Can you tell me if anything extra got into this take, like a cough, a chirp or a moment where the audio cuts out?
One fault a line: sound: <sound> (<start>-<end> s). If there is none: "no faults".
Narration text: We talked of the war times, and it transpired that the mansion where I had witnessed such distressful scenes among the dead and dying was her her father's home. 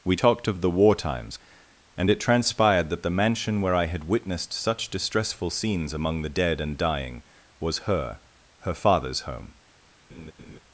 sound: laugh (10.1-10.6 s)